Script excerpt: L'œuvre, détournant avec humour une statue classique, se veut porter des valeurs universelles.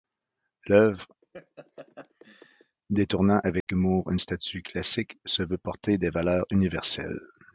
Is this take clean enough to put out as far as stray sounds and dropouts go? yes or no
no